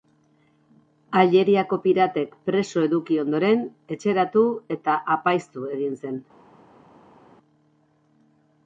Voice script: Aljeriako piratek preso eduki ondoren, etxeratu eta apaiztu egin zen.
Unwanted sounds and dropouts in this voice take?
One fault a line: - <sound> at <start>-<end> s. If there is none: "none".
none